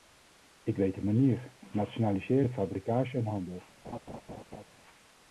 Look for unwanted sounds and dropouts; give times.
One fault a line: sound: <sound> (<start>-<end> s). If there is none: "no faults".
sound: laugh (3.8-4.7 s)